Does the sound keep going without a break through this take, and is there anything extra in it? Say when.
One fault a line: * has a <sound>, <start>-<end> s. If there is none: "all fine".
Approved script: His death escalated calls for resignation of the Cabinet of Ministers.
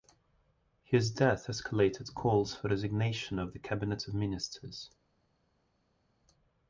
all fine